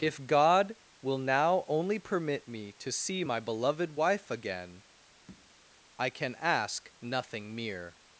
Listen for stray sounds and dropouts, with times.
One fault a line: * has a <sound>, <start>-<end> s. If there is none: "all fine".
* has a tap, 5.3-5.5 s